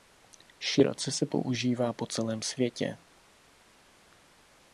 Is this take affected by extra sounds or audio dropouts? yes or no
no